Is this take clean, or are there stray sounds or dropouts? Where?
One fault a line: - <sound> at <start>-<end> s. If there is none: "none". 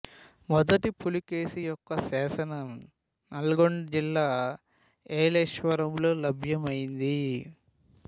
none